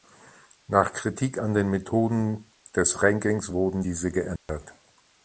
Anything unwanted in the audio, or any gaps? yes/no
yes